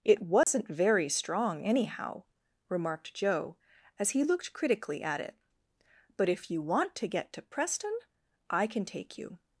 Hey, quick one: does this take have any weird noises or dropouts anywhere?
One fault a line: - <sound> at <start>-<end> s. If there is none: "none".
- dropout at 0.4-0.5 s